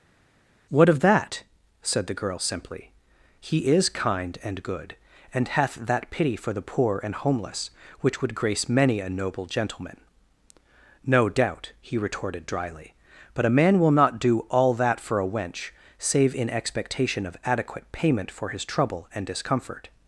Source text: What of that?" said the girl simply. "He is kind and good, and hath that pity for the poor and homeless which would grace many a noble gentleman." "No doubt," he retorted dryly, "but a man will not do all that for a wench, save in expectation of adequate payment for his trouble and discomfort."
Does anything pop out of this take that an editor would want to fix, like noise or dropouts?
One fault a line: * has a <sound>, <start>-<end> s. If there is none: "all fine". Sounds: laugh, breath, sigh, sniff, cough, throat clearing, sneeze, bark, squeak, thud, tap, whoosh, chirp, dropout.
all fine